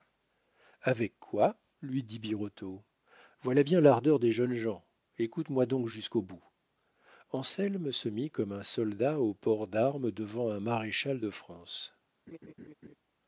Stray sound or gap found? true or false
true